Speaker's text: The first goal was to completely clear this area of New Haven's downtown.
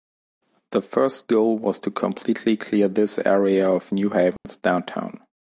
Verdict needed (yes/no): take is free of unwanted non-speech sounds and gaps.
no